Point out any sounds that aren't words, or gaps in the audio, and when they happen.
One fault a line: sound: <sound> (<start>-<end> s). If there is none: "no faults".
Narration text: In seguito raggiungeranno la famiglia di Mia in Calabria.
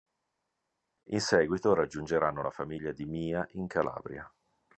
no faults